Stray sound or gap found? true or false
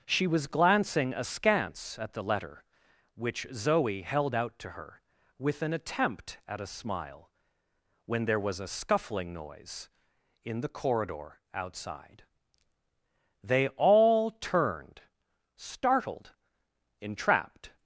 false